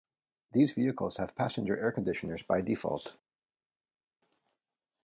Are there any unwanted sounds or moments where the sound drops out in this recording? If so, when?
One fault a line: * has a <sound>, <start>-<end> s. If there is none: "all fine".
all fine